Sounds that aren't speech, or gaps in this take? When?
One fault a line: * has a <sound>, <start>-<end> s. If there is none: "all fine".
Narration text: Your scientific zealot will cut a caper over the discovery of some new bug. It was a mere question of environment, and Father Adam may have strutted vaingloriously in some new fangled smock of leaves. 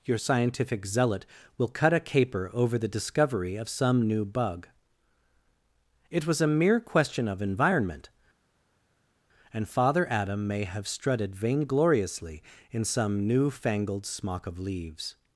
all fine